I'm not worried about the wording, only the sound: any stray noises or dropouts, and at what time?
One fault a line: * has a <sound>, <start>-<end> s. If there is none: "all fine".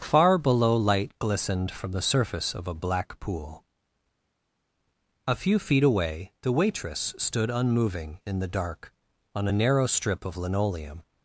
all fine